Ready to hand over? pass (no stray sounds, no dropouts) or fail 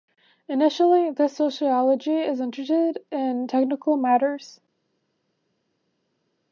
pass